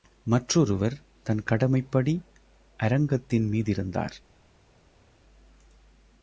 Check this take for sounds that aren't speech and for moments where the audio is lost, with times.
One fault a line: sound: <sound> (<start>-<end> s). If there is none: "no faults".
no faults